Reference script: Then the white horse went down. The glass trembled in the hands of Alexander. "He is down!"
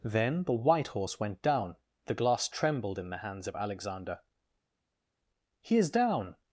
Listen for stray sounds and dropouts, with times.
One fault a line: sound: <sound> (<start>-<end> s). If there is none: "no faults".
no faults